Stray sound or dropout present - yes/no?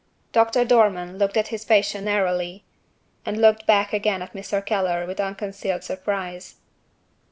no